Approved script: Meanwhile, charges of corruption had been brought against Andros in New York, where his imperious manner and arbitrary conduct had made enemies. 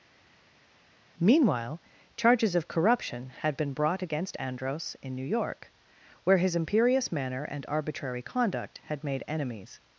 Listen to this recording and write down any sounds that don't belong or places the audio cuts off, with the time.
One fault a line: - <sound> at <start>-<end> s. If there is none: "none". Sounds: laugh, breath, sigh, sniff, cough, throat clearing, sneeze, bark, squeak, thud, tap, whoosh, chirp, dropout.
none